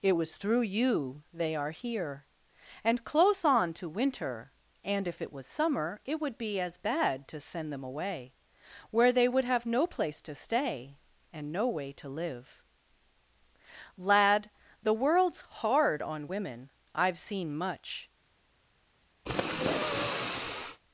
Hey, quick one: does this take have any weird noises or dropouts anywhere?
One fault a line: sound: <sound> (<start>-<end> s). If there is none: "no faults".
sound: sniff (19.3-20.8 s)